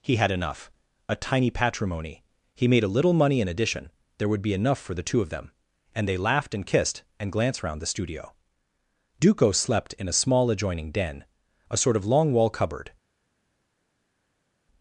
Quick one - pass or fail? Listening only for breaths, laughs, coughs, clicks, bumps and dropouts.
pass